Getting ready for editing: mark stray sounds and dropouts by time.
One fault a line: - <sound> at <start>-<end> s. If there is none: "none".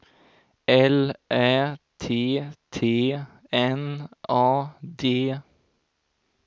none